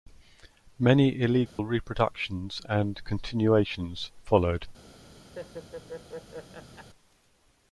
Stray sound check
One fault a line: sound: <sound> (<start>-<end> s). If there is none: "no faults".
sound: dropout (1.5-1.6 s)
sound: laugh (5.4-6.9 s)